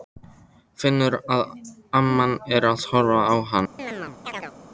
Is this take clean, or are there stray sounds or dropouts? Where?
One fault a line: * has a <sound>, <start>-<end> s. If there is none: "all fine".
* has a chirp, 3.8-4.5 s